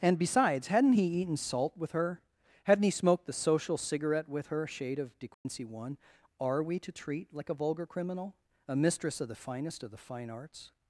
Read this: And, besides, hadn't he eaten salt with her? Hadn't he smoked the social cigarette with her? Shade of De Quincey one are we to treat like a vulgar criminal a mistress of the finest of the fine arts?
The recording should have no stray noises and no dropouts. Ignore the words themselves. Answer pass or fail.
fail